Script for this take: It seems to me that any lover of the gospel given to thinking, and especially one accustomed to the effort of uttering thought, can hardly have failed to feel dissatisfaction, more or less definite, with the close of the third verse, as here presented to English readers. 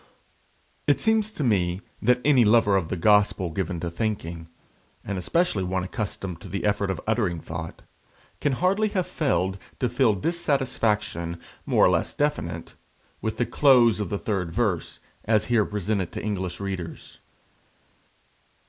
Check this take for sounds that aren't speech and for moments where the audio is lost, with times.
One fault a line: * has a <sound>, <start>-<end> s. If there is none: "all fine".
all fine